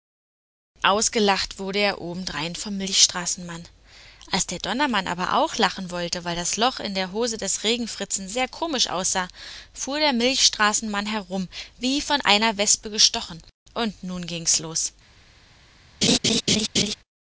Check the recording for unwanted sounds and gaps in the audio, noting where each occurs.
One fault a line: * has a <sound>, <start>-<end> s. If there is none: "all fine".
* has a laugh, 16.0-16.9 s